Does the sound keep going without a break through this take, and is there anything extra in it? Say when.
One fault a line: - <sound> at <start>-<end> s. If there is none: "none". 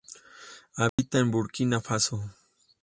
- dropout at 0.9-1.0 s